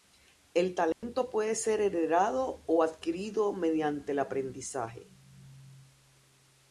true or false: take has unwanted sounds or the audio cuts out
true